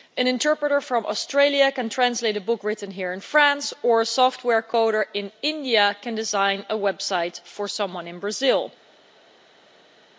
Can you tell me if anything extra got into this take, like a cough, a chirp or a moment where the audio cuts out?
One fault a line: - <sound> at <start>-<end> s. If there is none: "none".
none